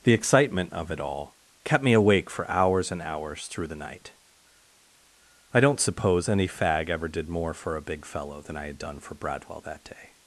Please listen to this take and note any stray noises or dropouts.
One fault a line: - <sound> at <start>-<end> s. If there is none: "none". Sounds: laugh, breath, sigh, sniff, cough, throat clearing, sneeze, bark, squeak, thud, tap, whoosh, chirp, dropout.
none